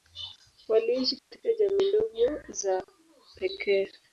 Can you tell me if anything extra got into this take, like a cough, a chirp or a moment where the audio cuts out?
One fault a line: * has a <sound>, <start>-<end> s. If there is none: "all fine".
* has a dropout, 1.2-1.3 s